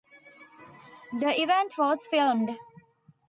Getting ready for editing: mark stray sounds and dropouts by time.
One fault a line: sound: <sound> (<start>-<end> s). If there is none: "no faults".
no faults